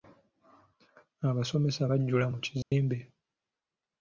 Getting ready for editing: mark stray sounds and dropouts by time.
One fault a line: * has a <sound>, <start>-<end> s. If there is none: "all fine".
* has a dropout, 2.6-2.7 s